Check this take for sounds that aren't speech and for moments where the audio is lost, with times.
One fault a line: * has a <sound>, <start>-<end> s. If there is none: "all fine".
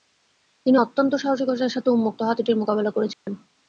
* has a dropout, 3.1-3.3 s